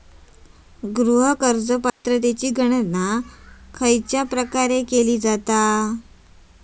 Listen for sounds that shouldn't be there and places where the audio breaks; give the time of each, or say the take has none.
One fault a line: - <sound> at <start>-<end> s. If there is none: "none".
- dropout at 1.9-2.0 s